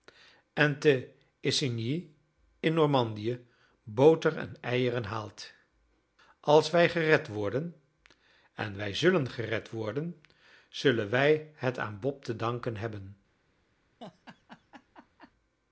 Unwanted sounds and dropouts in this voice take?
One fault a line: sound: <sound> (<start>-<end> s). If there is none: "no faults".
sound: laugh (14.0-15.3 s)